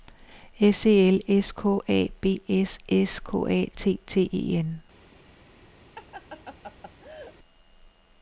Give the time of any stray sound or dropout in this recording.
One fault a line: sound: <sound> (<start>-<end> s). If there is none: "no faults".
sound: laugh (6.0-7.4 s)